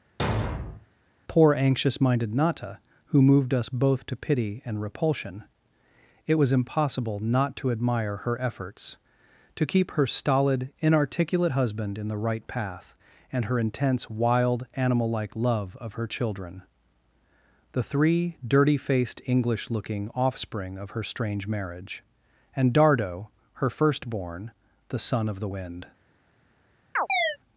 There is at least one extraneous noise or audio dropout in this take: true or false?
true